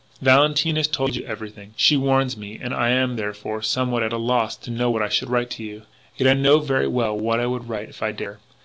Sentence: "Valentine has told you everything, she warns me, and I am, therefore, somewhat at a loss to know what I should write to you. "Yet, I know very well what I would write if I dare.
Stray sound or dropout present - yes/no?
no